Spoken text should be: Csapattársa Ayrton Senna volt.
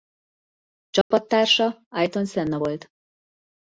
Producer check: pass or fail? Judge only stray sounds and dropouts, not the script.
fail